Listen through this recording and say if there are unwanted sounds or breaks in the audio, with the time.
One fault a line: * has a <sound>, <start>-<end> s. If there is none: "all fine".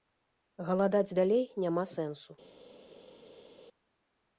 all fine